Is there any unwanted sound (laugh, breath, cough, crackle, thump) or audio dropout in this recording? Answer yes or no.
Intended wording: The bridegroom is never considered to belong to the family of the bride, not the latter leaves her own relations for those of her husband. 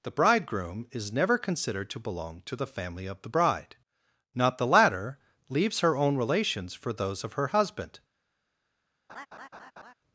yes